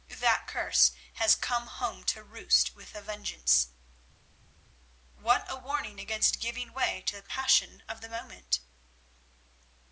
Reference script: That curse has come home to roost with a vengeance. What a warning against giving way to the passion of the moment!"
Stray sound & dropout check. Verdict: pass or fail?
pass